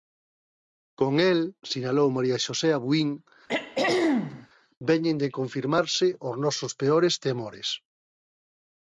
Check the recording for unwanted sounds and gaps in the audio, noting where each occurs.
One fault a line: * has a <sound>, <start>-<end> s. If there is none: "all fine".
* has a throat clearing, 3.5-4.5 s